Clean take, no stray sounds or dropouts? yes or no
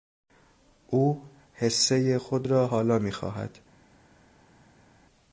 yes